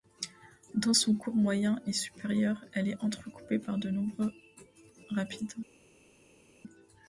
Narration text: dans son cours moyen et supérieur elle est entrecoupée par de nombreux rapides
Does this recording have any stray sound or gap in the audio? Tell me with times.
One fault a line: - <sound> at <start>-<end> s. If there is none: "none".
none